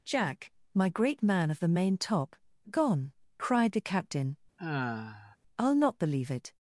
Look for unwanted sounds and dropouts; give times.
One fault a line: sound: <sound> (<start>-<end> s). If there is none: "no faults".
sound: sigh (4.6-5.4 s)